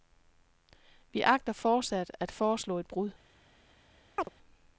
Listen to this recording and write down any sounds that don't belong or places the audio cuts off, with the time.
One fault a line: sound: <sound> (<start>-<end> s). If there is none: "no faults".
sound: chirp (4.2-4.3 s)